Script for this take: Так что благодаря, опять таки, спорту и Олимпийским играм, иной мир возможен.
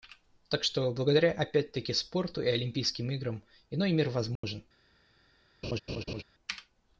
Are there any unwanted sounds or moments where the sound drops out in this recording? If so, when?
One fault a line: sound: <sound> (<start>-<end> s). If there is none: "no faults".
sound: dropout (4.4-4.4 s)
sound: laugh (5.6-6.2 s)